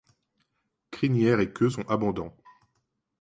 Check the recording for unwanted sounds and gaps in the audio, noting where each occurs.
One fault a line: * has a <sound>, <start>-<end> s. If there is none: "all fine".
all fine